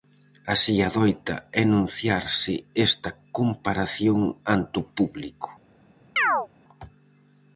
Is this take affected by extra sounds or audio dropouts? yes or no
yes